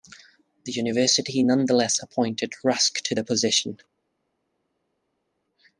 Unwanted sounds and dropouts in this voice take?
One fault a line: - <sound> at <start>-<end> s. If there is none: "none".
none